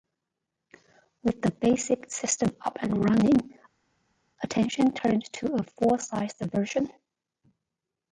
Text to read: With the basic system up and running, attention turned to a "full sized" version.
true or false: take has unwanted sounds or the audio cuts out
false